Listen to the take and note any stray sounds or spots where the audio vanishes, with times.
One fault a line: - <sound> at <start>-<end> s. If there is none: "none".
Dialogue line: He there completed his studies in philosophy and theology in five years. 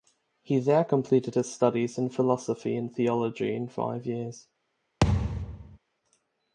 - thud at 5.0-5.8 s